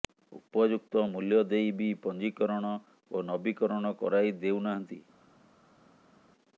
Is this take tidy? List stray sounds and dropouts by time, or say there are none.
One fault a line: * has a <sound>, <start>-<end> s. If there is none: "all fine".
all fine